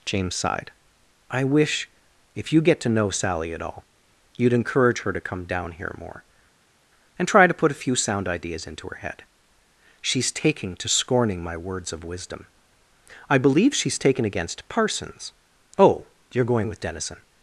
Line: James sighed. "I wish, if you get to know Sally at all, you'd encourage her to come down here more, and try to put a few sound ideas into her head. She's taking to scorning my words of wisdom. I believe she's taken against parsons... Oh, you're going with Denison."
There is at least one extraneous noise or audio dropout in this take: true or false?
false